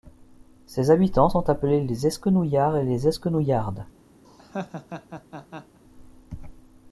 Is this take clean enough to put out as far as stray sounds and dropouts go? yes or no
no